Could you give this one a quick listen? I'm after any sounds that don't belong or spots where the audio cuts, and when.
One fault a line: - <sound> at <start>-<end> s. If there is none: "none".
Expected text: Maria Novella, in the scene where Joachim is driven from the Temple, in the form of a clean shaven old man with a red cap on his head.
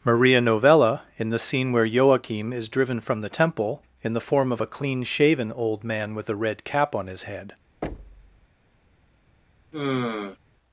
- thud at 7.8-8.5 s
- sigh at 9.7-10.4 s